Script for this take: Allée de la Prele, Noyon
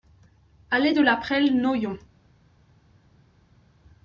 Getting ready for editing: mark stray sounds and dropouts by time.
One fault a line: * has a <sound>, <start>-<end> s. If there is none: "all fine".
all fine